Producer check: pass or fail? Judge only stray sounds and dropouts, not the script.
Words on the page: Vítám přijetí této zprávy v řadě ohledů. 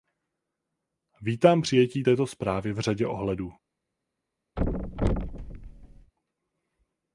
fail